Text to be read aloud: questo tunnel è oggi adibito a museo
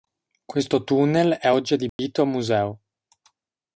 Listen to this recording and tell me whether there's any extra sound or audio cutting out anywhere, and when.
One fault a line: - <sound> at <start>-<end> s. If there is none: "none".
- dropout at 1.9-2.0 s